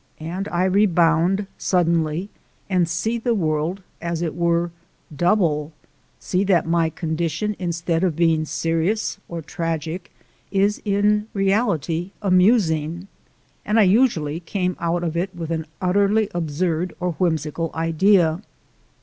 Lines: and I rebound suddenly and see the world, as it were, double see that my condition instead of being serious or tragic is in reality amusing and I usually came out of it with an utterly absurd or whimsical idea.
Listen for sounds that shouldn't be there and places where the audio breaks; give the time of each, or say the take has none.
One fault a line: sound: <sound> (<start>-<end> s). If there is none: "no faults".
no faults